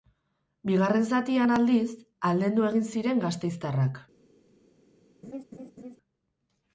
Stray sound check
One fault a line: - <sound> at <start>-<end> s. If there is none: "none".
- laugh at 5.2-6.0 s